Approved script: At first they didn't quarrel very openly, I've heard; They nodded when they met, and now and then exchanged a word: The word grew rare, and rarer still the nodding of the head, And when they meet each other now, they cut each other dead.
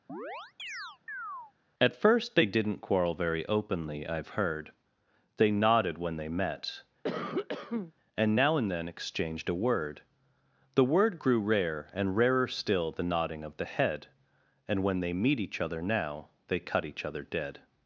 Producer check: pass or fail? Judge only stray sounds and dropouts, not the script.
fail